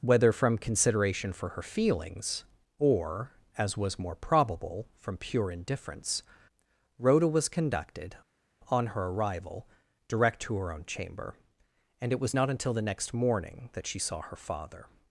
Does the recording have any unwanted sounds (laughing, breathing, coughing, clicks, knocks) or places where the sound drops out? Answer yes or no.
no